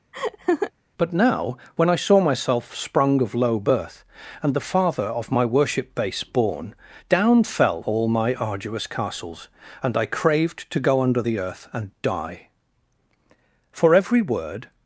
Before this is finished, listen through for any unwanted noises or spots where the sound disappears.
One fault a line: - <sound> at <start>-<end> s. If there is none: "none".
- laugh at 0.1-0.7 s